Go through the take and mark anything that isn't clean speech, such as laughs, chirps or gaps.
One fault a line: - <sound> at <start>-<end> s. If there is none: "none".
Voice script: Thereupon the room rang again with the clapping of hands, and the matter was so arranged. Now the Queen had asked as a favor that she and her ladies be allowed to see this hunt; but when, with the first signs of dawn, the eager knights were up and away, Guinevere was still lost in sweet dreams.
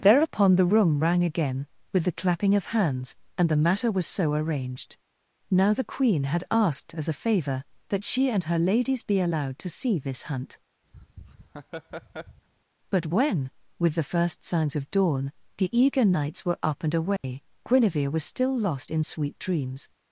- laugh at 10.9-12.5 s
- dropout at 17.2-17.2 s